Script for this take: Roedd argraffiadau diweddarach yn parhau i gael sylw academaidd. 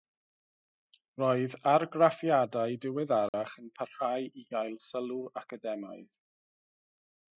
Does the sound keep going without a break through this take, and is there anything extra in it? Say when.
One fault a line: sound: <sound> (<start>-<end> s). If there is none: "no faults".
sound: dropout (3.3-3.3 s)